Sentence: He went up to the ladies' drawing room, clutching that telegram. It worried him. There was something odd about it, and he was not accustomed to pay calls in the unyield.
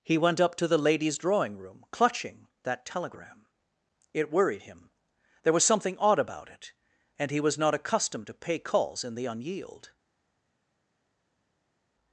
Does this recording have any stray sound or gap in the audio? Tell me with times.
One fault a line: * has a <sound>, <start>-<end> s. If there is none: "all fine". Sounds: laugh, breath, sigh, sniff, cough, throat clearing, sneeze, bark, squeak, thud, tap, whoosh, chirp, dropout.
all fine